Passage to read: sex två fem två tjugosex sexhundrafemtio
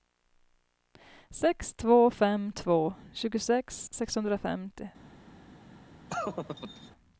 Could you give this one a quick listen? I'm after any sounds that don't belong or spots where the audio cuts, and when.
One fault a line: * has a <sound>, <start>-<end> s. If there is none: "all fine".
* has a laugh, 6.1-6.9 s